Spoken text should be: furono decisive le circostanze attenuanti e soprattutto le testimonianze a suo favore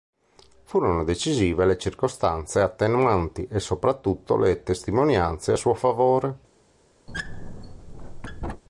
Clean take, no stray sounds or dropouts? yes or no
no